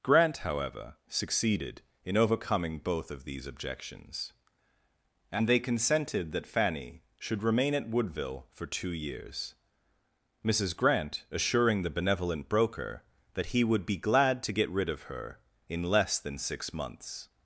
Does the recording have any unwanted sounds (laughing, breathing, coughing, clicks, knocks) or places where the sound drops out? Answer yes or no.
no